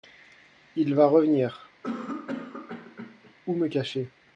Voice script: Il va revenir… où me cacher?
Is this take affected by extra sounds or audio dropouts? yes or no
yes